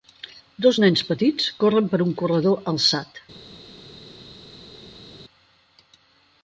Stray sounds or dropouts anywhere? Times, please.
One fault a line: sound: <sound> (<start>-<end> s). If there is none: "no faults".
no faults